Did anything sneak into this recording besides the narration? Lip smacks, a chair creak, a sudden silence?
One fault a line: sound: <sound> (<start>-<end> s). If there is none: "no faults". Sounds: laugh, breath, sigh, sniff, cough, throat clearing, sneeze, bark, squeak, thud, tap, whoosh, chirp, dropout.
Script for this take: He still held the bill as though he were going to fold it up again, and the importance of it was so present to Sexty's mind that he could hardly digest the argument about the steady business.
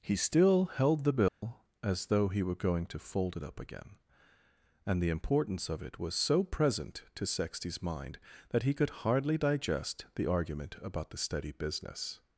sound: dropout (1.3-1.4 s)